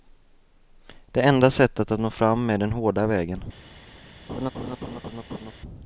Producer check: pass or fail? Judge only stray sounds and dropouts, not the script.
fail